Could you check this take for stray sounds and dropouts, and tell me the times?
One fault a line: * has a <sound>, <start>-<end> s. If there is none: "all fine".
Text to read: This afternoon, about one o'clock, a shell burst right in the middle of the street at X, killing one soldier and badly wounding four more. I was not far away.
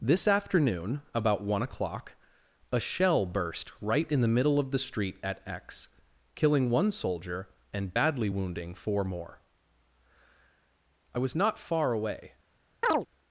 * has a chirp, 12.8-13.1 s